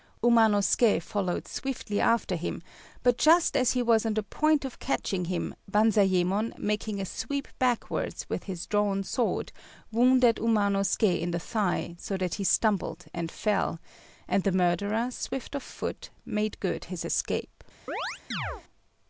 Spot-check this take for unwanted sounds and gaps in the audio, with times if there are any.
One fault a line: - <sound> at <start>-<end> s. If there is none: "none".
- chirp at 17.9-18.6 s